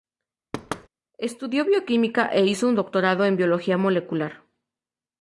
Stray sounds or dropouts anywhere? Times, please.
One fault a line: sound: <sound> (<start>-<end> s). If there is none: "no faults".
sound: thud (0.5-0.9 s)